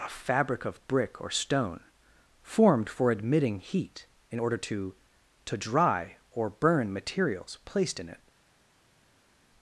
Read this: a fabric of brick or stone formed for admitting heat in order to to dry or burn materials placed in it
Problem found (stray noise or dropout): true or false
false